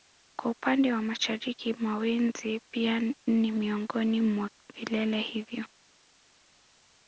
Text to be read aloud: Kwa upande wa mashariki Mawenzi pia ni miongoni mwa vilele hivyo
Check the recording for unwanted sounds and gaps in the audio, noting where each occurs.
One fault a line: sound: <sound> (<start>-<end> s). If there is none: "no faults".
no faults